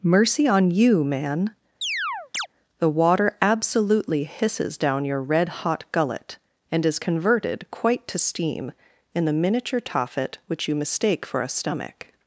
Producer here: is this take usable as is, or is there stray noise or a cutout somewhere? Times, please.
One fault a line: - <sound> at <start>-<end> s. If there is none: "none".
- chirp at 1.8-2.5 s